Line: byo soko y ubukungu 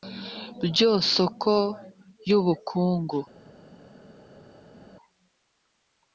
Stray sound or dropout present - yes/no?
no